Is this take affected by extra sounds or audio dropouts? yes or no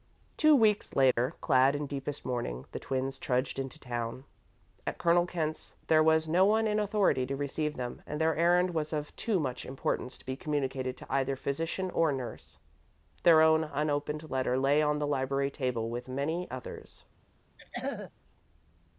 yes